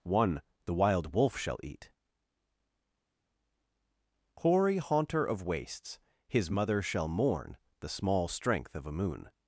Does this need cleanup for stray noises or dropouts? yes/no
no